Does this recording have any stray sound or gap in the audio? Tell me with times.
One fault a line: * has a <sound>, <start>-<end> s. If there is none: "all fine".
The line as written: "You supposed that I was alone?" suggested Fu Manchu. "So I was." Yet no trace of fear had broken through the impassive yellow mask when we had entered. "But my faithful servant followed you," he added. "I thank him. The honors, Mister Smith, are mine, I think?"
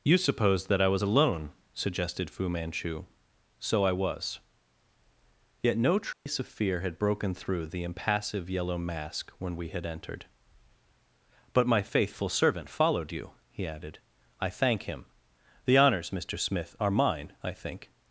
* has a dropout, 6.1-6.3 s